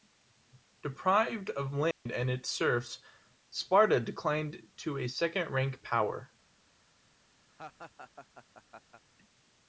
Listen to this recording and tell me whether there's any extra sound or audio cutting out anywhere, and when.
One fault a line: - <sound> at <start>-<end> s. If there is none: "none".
- dropout at 1.9-2.1 s
- laugh at 7.5-9.0 s